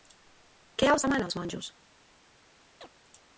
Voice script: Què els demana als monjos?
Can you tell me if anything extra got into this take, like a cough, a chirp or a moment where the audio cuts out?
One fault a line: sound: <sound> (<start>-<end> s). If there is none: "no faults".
sound: chirp (2.8-2.9 s)